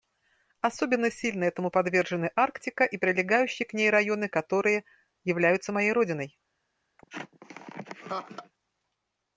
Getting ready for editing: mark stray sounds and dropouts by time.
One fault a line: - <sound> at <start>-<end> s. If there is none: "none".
- laugh at 7.0-8.5 s